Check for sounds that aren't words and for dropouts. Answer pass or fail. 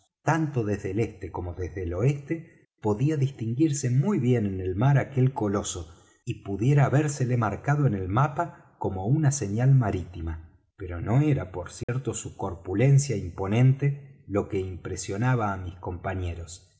fail